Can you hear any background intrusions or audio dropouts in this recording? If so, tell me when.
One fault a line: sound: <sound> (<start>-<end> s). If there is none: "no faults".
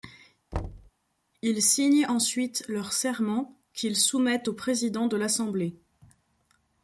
sound: thud (0.5-0.9 s)